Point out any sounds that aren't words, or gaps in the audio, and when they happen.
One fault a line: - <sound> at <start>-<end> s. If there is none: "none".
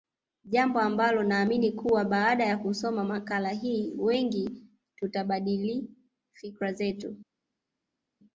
none